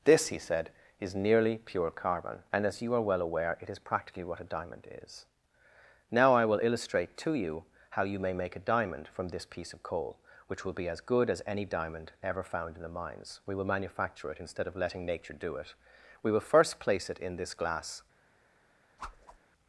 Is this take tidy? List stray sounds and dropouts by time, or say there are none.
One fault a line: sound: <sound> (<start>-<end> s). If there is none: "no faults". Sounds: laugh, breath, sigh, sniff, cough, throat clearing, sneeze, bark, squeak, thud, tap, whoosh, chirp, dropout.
sound: whoosh (19.0-19.4 s)